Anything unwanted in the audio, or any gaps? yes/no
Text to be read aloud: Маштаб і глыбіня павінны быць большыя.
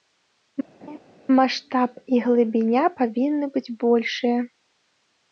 yes